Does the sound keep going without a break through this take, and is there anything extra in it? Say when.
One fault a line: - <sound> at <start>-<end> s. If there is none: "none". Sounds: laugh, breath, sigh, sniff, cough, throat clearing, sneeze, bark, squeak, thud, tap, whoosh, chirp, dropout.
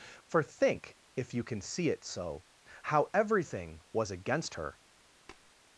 - tap at 5.3-5.5 s